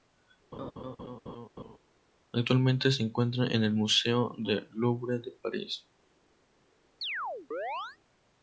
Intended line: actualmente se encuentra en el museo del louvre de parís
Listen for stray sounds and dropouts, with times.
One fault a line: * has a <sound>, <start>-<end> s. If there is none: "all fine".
* has a laugh, 0.5-1.8 s
* has a chirp, 7.0-8.0 s